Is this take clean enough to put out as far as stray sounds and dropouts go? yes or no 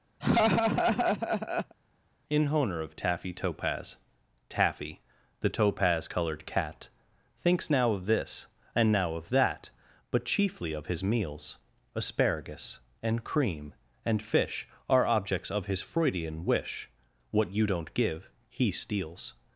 no